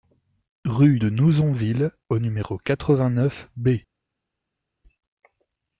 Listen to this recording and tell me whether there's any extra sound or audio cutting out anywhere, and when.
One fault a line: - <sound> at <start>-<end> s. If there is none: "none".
none